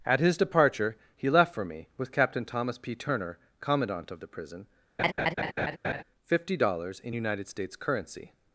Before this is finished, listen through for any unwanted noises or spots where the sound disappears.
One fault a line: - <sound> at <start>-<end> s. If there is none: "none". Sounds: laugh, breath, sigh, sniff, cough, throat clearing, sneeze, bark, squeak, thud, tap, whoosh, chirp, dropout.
- laugh at 5.0-6.0 s